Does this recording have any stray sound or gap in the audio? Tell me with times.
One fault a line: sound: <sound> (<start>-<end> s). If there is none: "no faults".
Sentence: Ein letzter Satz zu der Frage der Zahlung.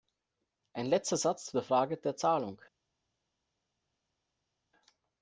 no faults